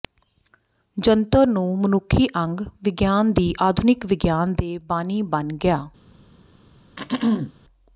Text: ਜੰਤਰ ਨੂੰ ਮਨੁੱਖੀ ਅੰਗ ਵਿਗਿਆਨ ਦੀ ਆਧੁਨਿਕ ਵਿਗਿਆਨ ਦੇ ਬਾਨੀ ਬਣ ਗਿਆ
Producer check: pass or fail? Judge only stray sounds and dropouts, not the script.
fail